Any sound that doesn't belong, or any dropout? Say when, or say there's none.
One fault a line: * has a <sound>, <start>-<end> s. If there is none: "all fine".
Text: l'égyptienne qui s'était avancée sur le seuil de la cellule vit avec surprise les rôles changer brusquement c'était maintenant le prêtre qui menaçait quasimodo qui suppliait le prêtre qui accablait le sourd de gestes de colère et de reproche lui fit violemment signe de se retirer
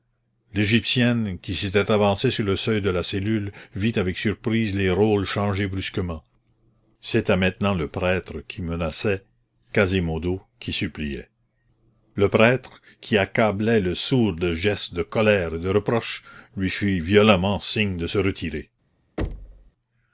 * has a thud, 19.2-19.7 s